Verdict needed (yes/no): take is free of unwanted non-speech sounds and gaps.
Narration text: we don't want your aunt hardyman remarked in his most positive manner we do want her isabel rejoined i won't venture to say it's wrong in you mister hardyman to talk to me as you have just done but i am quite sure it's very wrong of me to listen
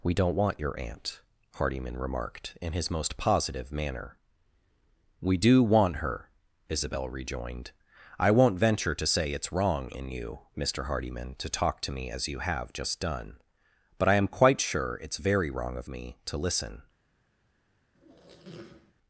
no